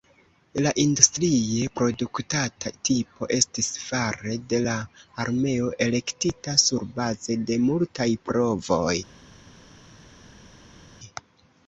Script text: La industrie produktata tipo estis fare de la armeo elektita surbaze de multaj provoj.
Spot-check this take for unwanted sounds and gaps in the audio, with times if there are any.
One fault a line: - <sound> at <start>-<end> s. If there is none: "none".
none